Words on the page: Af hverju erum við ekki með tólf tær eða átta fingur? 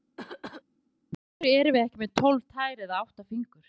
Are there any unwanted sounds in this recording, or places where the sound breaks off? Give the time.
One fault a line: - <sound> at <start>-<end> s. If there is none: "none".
- cough at 0.2-0.6 s